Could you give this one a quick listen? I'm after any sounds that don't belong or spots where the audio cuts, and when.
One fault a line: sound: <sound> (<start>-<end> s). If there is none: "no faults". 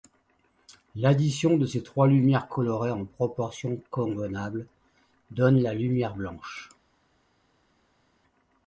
no faults